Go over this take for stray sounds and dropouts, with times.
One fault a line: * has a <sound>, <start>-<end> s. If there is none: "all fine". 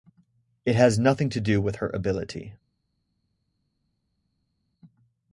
all fine